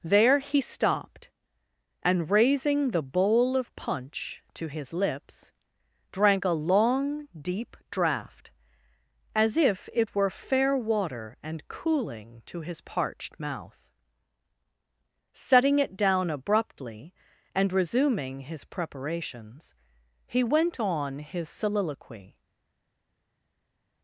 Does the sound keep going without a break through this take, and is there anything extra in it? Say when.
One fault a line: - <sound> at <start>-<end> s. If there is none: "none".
none